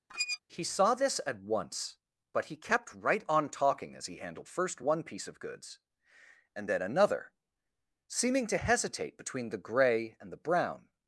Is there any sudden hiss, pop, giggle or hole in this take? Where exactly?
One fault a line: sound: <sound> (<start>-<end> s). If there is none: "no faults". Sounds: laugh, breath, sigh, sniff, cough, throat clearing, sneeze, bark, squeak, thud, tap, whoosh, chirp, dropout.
sound: squeak (0.1-0.4 s)